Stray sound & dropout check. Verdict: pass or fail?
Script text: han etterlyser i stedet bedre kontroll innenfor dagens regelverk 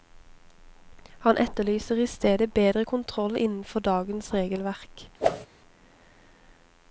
fail